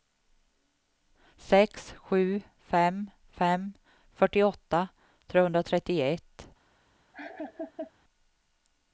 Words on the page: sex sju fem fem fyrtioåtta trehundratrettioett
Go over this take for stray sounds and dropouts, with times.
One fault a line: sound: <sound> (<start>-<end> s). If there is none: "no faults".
sound: laugh (7.1-7.9 s)